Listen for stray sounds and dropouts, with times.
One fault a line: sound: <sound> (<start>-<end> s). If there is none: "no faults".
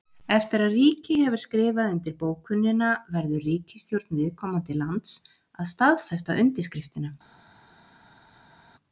no faults